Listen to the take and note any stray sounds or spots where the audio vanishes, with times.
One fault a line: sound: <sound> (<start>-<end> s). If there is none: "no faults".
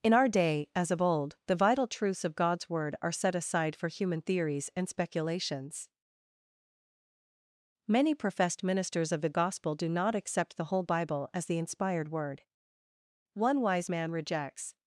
no faults